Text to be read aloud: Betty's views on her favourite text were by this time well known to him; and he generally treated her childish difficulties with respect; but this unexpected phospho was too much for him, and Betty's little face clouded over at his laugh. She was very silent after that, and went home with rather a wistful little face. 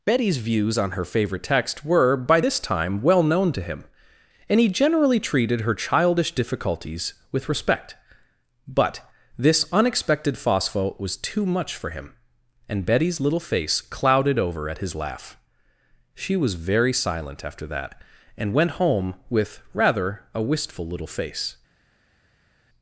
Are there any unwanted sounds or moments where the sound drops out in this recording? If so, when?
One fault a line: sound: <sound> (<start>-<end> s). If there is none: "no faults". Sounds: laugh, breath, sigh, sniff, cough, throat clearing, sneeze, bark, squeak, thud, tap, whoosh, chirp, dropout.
no faults